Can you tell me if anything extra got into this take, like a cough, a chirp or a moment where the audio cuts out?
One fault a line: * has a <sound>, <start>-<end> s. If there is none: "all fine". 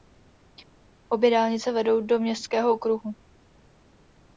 all fine